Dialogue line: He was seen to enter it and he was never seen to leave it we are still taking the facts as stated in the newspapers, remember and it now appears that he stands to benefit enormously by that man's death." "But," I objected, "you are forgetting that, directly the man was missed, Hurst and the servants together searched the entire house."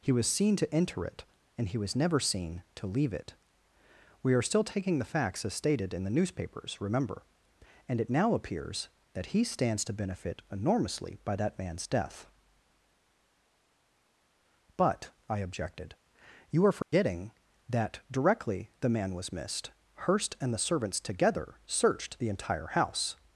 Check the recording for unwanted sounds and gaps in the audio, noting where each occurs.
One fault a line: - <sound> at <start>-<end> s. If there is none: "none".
- dropout at 16.8-16.9 s